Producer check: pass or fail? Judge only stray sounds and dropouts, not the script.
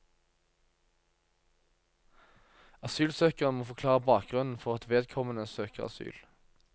pass